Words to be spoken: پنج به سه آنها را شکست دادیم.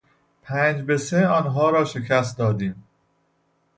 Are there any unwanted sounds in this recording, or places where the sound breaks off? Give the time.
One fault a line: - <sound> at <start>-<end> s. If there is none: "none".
none